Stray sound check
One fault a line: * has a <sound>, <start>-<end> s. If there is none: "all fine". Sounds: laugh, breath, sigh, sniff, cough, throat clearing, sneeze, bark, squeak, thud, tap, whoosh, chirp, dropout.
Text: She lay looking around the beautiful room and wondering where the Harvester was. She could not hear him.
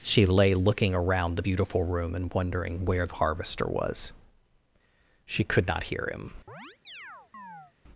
* has a chirp, 6.5-7.7 s